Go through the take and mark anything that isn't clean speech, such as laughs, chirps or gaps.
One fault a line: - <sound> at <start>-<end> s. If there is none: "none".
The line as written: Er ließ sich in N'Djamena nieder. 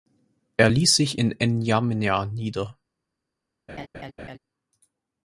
- laugh at 3.7-4.4 s